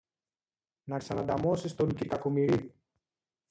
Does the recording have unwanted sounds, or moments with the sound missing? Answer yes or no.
no